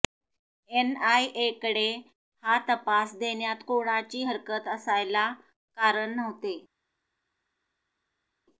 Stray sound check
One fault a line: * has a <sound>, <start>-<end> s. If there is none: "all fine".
all fine